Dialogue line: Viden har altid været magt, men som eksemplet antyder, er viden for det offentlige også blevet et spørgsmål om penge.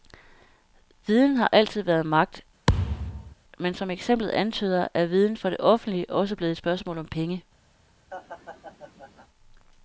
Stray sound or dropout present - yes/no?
yes